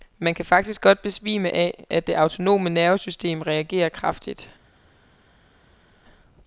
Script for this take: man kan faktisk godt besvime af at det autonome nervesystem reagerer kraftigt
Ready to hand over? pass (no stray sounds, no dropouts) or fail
pass